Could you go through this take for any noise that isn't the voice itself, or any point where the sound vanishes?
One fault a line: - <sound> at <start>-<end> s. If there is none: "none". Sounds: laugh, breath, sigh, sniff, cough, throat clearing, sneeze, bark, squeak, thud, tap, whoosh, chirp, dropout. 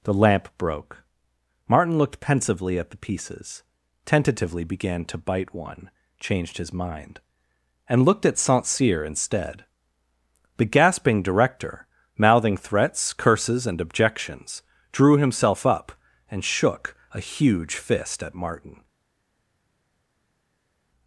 none